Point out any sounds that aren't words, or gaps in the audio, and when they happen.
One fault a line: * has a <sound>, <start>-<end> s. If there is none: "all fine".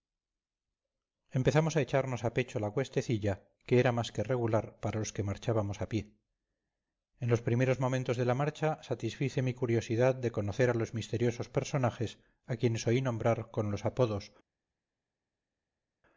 all fine